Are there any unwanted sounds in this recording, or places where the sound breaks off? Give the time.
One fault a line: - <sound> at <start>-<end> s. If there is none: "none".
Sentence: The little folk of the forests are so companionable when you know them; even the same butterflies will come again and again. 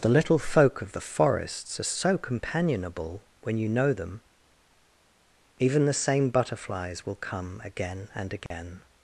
- dropout at 8.5-8.5 s